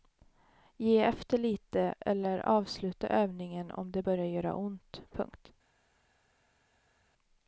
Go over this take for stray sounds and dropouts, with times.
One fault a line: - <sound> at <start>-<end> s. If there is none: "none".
none